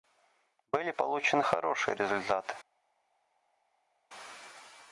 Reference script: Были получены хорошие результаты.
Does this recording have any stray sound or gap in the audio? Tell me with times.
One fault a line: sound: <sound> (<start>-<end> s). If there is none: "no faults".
no faults